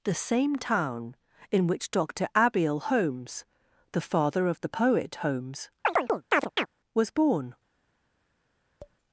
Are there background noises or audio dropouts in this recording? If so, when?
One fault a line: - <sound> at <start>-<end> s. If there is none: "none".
- chirp at 5.8-6.7 s
- tap at 8.8-9.0 s